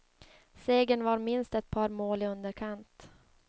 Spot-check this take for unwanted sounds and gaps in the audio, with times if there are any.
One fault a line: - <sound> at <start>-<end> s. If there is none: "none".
none